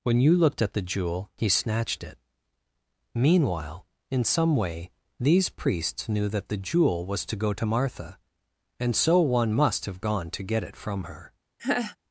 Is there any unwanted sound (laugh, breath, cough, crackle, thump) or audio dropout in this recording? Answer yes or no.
yes